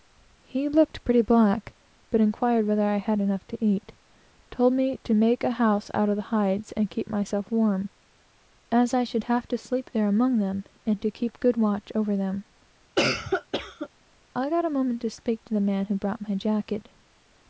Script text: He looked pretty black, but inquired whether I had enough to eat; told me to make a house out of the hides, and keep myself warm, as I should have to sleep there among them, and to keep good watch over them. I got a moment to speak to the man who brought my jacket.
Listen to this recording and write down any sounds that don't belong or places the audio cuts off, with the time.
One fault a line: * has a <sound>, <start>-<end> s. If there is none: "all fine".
* has a cough, 13.0-13.9 s